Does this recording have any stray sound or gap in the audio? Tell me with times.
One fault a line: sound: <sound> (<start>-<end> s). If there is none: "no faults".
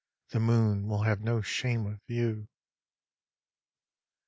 no faults